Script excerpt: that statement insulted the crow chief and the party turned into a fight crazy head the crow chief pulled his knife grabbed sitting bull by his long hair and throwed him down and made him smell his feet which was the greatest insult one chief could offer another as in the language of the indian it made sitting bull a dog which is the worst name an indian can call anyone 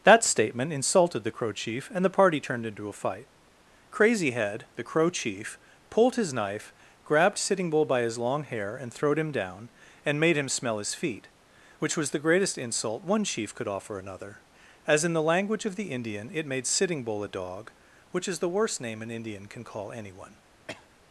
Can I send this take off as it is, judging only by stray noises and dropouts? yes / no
no